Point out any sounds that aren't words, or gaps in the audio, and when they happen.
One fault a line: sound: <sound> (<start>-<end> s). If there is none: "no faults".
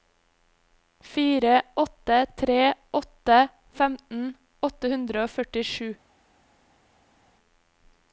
no faults